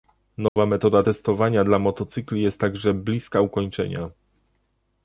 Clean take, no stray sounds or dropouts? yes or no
no